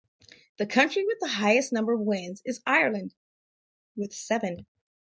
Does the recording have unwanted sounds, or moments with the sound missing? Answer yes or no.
no